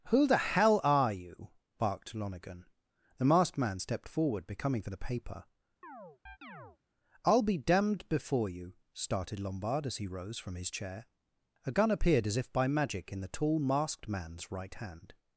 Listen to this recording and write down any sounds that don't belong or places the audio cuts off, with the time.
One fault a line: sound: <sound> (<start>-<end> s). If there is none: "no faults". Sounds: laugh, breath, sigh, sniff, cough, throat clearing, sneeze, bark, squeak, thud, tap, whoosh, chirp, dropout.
sound: chirp (5.8-6.8 s)